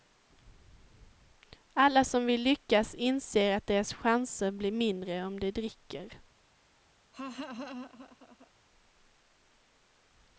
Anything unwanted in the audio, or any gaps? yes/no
yes